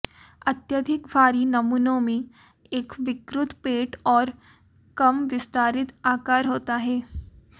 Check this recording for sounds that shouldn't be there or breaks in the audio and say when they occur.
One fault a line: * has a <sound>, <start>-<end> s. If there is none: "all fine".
all fine